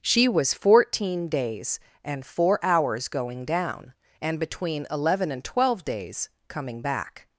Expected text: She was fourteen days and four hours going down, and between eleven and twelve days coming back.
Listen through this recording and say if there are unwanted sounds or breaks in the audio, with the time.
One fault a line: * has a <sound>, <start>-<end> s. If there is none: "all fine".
all fine